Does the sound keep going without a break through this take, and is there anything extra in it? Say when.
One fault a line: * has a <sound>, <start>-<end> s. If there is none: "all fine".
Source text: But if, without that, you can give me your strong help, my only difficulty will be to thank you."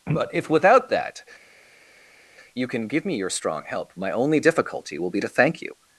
all fine